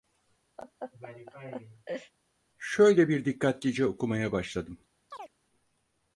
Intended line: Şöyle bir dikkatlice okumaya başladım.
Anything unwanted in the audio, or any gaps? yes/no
yes